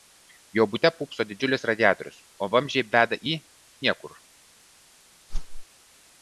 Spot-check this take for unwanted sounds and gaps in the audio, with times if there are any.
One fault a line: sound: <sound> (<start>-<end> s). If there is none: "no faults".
sound: whoosh (5.3-5.7 s)